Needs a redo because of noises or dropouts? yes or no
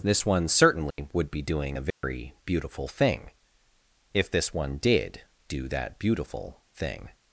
yes